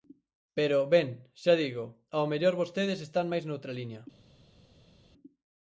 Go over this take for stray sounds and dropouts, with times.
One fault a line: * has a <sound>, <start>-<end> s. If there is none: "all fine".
all fine